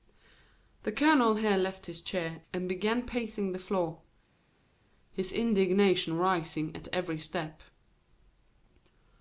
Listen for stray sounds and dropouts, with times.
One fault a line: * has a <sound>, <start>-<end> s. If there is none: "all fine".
all fine